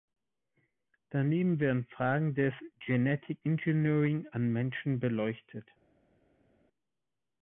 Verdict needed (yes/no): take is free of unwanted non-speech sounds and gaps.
yes